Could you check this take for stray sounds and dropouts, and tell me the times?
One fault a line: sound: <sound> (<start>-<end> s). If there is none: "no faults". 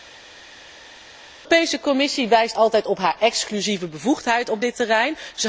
no faults